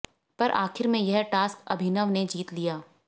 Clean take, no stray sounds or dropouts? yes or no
yes